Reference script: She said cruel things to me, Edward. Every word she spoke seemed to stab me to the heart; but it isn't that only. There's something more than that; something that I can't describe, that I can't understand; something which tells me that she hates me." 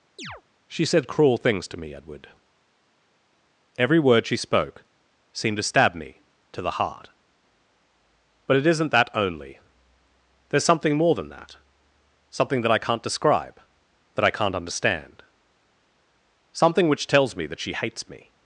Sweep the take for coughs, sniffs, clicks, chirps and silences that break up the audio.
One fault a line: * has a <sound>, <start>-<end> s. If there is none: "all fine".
* has a chirp, 0.2-0.4 s